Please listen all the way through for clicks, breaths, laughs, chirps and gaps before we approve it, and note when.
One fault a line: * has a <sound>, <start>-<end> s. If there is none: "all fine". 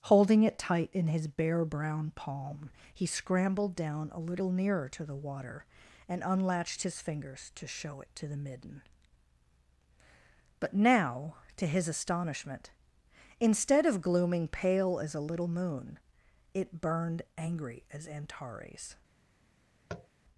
* has a tap, 19.9-20.1 s